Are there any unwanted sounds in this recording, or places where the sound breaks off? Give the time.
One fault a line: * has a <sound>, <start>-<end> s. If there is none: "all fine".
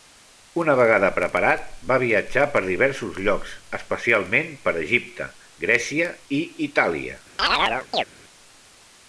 * has a chirp, 7.4-8.0 s